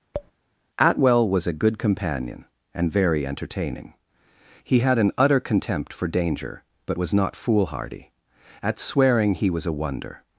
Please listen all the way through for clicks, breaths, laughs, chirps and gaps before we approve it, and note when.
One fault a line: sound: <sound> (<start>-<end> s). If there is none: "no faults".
sound: tap (0.1-0.3 s)